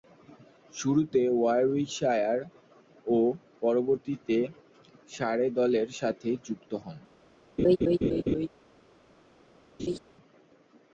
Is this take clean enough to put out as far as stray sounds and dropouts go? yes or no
no